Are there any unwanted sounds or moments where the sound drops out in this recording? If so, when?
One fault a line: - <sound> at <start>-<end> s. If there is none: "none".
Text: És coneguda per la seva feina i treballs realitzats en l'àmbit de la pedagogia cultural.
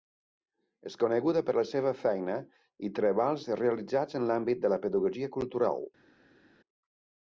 none